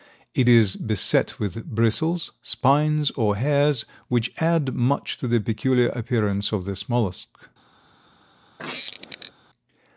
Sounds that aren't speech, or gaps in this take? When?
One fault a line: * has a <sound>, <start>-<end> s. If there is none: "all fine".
* has a squeak, 8.6-9.3 s